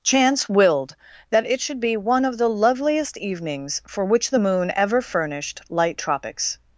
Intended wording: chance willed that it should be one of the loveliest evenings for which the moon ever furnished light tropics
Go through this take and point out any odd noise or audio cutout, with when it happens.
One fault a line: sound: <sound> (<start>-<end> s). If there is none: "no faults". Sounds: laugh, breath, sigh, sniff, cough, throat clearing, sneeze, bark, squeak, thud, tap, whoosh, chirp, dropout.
no faults